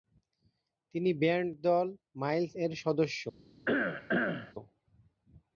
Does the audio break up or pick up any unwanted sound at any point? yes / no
yes